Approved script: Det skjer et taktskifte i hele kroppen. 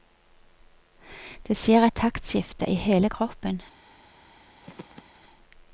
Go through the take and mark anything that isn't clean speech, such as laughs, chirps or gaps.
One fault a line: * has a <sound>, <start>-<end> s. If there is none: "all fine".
* has a throat clearing, 4.6-5.0 s